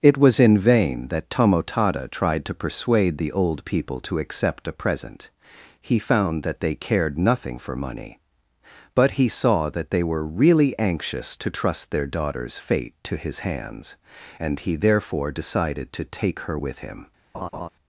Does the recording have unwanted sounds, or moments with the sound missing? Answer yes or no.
yes